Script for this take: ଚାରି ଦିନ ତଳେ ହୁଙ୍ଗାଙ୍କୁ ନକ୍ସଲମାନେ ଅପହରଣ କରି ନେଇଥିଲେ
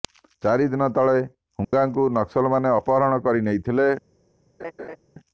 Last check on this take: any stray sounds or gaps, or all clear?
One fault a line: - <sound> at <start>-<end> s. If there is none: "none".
- dropout at 1.6-1.7 s
- laugh at 4.6-5.0 s